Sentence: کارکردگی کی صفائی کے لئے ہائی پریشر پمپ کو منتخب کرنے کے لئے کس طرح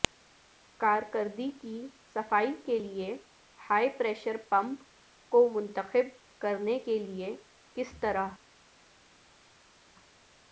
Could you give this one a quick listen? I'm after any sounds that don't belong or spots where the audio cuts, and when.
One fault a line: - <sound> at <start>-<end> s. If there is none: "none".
none